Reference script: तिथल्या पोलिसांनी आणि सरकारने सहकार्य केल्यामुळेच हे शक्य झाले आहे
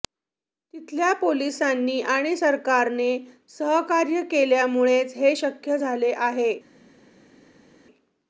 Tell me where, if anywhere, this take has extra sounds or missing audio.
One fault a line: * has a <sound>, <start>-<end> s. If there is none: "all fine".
all fine